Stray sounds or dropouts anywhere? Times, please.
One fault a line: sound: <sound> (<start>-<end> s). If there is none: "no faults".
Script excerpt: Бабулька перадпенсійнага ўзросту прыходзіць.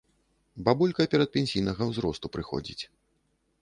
no faults